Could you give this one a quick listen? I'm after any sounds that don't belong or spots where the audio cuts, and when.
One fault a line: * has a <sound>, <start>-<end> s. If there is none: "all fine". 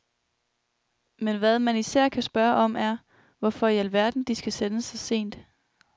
all fine